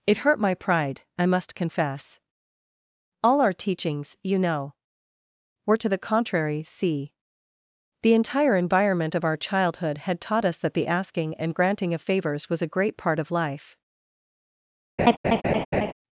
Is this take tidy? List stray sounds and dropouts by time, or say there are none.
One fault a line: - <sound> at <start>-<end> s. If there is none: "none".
- laugh at 15.0-15.9 s